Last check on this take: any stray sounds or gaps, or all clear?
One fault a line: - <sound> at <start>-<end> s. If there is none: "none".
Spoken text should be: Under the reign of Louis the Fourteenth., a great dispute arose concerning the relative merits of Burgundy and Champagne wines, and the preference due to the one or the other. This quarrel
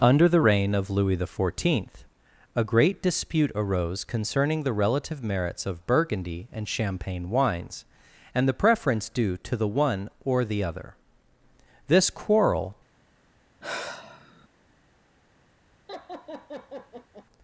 - sigh at 13.6-14.5 s
- laugh at 15.9-17.3 s